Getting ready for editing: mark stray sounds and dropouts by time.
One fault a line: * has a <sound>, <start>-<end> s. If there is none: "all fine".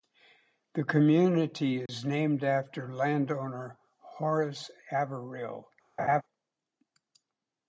* has a dropout, 1.9-1.9 s
* has a laugh, 6.0-6.2 s